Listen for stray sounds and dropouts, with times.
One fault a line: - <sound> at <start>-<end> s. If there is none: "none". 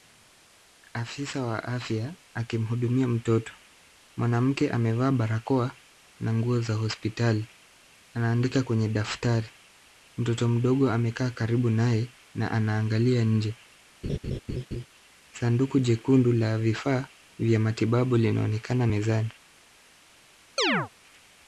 - laugh at 14.0-14.9 s
- chirp at 20.6-20.9 s